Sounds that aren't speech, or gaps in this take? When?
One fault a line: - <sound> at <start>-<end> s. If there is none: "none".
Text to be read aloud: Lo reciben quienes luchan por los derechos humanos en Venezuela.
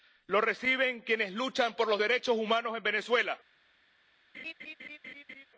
- laugh at 4.3-5.5 s